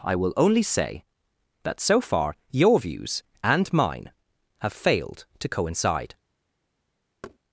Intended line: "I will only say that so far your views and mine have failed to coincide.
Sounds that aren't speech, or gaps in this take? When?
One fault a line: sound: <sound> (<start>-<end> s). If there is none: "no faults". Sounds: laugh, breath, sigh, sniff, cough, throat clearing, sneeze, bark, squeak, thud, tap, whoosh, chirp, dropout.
sound: thud (7.2-7.4 s)